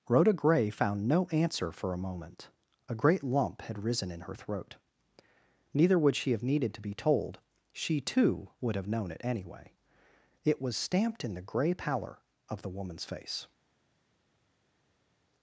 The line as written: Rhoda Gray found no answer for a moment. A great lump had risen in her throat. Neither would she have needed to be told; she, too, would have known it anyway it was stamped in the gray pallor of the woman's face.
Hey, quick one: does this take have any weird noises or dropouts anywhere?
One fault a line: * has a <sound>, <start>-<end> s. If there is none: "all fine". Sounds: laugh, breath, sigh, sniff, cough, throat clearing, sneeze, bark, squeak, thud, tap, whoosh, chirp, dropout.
all fine